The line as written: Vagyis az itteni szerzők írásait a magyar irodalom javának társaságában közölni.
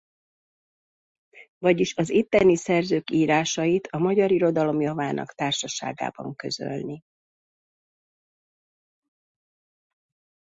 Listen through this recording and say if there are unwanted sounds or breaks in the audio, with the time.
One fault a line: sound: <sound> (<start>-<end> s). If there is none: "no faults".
no faults